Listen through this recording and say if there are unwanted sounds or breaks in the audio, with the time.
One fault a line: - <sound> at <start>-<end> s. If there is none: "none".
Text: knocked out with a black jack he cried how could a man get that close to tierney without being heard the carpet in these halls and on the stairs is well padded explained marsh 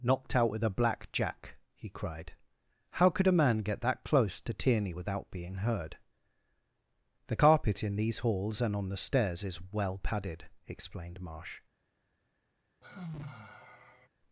- sigh at 12.8-14.1 s